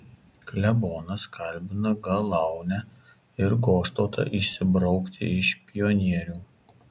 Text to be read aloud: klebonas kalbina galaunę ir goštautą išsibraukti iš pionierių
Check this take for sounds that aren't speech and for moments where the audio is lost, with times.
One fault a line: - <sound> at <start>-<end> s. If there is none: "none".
none